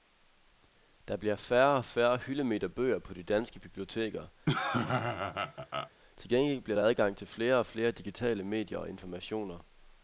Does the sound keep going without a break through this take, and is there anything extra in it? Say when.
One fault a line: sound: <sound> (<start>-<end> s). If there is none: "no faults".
sound: laugh (4.5-5.9 s)